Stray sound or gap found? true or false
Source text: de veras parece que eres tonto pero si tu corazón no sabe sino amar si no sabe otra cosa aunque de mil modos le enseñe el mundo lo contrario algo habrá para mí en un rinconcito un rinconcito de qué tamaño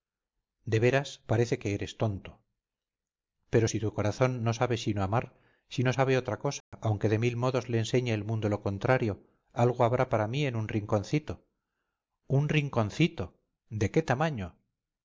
true